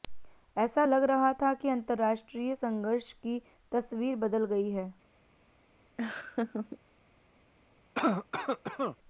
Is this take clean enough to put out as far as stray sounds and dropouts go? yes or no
no